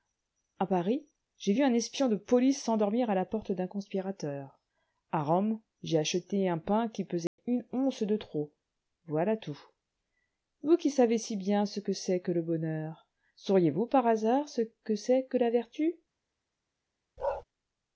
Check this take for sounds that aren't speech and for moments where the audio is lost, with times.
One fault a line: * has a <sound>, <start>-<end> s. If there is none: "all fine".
* has a dropout, 7.3-7.4 s
* has a bark, 17.2-17.4 s